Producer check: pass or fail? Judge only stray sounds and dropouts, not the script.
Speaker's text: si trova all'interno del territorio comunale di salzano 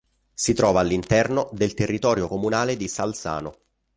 pass